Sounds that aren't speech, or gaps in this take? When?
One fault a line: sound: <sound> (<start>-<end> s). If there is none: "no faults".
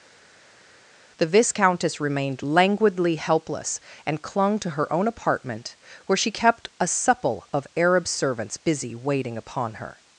no faults